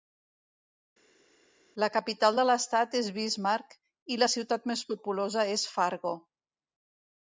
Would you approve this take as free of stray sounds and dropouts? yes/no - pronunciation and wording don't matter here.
yes